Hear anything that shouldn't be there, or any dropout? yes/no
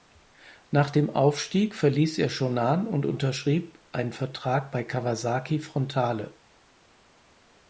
no